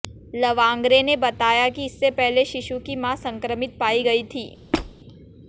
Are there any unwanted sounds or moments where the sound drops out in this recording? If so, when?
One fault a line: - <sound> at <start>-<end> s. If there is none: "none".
- squeak at 4.7-5.0 s